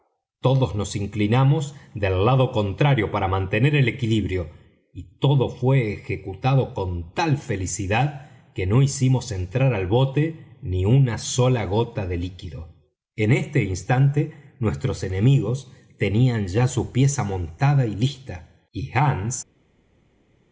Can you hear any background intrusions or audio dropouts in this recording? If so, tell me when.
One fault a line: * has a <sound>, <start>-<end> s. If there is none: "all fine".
all fine